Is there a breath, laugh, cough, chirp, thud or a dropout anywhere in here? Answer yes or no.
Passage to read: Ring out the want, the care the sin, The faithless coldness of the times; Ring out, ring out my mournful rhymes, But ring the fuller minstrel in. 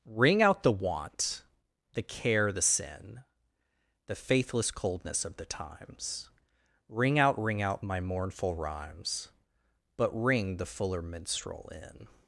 no